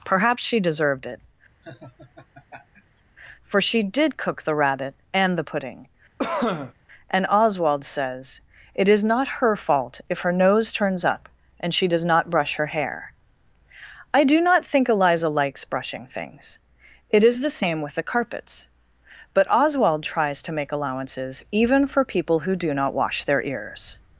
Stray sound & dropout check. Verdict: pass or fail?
fail